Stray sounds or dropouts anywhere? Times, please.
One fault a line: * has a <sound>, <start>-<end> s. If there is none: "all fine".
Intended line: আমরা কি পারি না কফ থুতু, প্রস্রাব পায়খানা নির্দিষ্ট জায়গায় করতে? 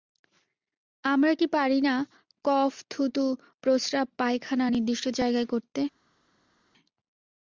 all fine